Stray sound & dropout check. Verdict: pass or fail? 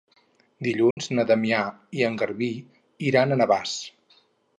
fail